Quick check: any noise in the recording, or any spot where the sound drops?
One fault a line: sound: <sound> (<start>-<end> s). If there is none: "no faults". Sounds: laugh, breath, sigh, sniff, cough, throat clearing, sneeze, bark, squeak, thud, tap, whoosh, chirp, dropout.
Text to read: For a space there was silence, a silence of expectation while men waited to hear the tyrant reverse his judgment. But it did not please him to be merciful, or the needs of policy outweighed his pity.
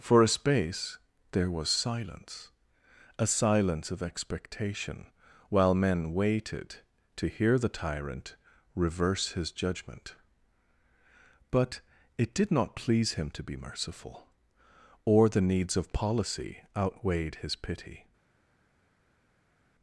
no faults